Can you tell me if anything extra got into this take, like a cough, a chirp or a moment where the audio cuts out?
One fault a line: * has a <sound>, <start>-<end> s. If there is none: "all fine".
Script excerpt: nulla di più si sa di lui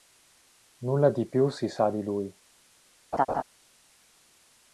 * has a laugh, 3.1-3.4 s